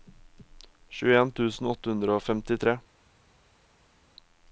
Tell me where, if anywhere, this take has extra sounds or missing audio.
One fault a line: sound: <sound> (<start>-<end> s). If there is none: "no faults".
no faults